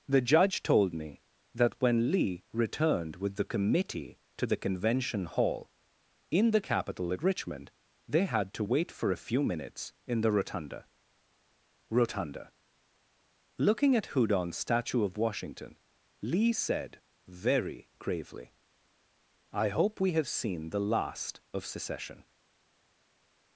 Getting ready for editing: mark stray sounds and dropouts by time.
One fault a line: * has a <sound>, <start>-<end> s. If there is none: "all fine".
all fine